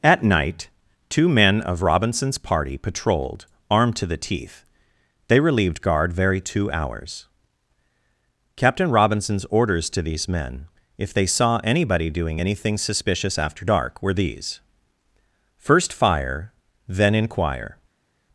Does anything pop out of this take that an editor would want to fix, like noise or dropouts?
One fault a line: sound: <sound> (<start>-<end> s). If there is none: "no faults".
no faults